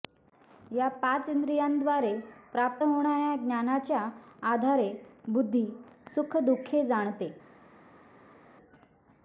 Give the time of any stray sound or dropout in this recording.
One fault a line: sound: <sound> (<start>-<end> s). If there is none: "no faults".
no faults